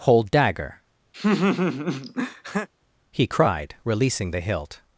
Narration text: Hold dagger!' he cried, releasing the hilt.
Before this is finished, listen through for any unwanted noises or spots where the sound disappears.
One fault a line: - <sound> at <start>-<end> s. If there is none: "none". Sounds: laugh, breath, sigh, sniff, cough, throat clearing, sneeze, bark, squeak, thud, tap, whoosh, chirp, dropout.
- laugh at 1.1-2.7 s